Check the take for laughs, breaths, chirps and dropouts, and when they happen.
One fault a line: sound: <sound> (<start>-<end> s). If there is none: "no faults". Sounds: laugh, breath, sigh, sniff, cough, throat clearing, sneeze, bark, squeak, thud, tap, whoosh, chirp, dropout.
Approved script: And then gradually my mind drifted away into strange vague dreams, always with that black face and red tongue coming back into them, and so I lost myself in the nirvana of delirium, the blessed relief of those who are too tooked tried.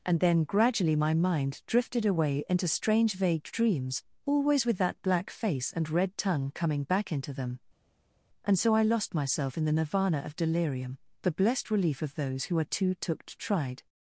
no faults